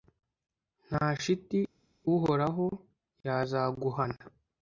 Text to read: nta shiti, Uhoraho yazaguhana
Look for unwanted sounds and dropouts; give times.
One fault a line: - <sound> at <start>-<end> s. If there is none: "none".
none